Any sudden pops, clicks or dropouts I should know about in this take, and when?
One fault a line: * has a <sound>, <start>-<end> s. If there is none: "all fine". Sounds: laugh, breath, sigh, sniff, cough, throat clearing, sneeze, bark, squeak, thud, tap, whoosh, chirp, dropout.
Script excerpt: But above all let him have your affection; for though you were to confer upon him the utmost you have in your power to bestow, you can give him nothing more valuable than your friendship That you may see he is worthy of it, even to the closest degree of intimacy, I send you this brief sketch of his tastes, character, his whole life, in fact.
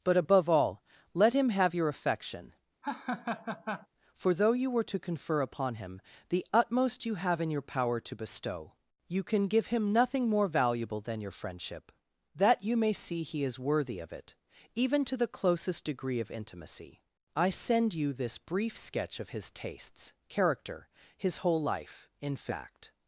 * has a laugh, 2.8-3.9 s